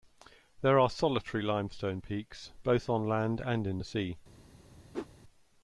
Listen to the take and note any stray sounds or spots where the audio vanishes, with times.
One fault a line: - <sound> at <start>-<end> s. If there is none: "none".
- whoosh at 4.9-5.1 s